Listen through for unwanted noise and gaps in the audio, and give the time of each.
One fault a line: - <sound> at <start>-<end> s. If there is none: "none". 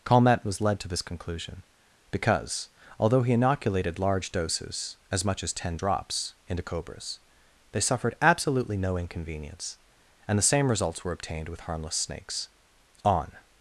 none